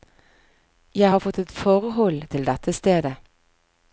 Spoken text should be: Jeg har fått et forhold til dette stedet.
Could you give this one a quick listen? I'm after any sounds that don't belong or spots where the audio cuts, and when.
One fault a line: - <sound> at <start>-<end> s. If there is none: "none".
none